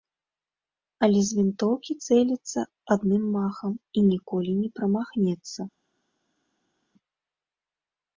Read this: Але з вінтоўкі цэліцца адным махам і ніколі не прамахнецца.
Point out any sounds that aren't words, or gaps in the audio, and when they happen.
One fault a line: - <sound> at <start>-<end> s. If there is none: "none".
none